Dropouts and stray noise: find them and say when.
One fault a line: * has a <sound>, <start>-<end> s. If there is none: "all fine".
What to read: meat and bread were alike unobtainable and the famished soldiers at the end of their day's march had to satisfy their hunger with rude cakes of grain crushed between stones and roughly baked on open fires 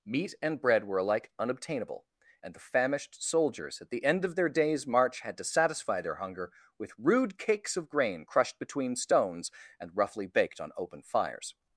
all fine